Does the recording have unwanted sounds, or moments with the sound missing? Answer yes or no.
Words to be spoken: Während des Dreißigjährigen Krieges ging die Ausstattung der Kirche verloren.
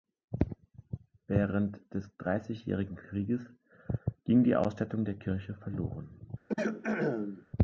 yes